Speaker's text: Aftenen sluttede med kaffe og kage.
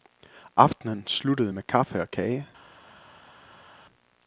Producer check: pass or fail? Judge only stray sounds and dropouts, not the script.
pass